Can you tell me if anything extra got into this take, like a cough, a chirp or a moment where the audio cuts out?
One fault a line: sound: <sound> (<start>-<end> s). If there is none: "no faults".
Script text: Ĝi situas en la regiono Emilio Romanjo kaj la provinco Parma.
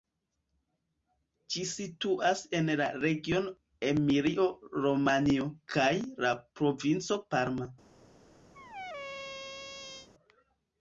sound: squeak (8.5-10.1 s)